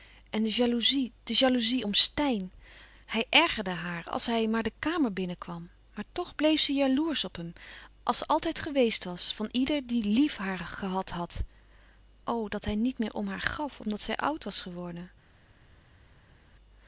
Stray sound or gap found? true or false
false